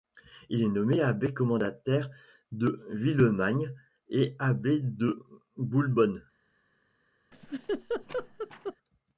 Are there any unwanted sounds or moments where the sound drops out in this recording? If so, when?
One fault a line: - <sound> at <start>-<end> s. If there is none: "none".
- laugh at 7.3-8.8 s